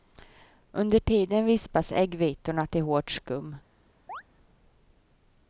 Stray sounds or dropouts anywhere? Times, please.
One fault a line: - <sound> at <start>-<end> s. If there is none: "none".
- chirp at 4.1-4.2 s